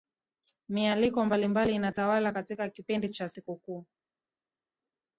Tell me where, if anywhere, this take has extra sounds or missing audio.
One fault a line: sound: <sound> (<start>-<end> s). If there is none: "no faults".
no faults